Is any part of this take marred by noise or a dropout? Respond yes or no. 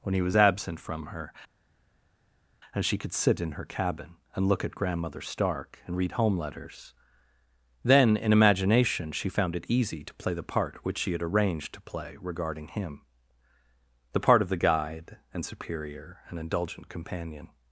no